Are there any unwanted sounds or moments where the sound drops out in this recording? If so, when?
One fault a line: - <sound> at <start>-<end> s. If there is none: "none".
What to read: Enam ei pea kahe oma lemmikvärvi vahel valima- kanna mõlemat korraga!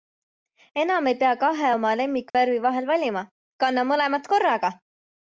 - dropout at 2.3-2.3 s